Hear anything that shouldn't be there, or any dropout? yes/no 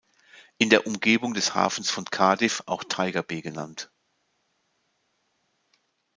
no